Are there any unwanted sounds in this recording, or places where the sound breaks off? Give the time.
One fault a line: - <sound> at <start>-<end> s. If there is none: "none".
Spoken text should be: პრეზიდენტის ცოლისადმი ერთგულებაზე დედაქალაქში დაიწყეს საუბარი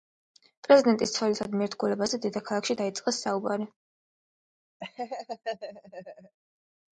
- laugh at 4.8-6.4 s